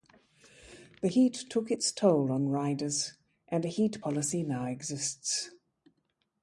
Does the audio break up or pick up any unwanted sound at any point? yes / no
no